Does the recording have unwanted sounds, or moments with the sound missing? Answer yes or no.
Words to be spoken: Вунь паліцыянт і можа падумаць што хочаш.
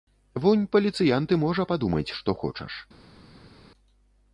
no